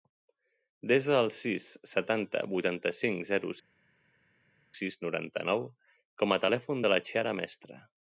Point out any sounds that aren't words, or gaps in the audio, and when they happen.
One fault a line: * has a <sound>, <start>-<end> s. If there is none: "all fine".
all fine